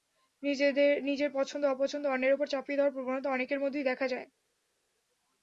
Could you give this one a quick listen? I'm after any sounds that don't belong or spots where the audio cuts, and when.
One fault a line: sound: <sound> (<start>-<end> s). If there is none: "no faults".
no faults